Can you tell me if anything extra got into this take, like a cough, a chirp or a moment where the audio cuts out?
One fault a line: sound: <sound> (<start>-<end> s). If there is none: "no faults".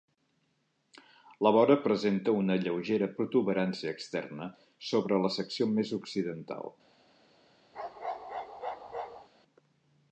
sound: bark (7.7-9.3 s)